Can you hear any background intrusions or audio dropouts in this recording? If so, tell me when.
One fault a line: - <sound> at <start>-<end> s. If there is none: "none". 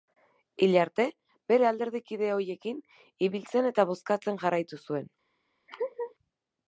- laugh at 5.7-6.1 s